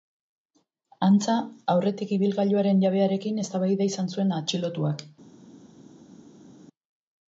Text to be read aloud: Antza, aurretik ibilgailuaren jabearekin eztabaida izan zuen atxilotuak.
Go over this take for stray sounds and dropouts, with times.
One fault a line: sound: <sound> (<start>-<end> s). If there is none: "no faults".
no faults